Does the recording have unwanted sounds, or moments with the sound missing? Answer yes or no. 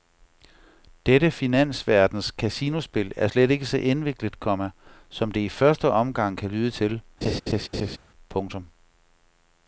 yes